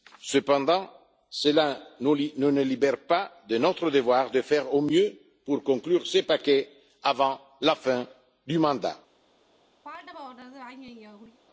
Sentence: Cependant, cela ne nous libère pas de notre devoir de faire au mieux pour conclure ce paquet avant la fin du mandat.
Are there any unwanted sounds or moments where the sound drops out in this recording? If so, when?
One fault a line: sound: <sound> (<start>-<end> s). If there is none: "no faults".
sound: throat clearing (9.8-11.4 s)